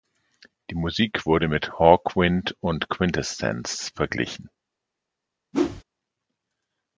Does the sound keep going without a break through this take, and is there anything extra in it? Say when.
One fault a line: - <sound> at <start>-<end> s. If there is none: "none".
- whoosh at 5.5-5.8 s